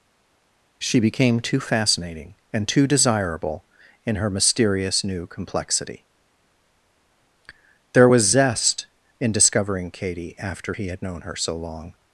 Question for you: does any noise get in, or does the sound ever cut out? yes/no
no